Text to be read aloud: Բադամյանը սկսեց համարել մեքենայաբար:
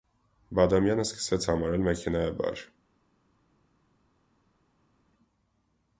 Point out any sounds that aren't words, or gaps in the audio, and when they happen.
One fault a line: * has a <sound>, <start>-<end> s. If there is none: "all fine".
all fine